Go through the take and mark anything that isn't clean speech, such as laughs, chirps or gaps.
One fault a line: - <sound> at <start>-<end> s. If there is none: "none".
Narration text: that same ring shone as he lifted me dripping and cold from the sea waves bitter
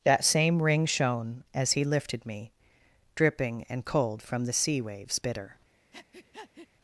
- breath at 5.9-6.7 s